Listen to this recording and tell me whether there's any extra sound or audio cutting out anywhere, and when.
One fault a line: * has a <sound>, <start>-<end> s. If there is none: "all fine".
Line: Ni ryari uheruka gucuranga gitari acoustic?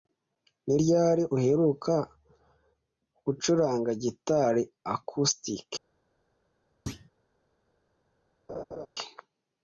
* has a thud, 6.9-7.1 s
* has a laugh, 8.5-8.9 s